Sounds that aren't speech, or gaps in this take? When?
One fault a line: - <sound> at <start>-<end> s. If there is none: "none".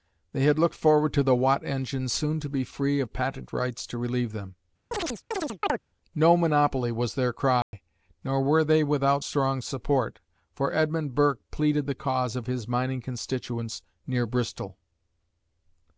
- chirp at 4.9-5.8 s
- dropout at 7.6-7.7 s